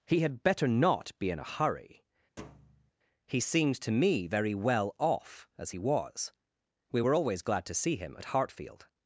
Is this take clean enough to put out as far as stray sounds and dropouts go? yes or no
no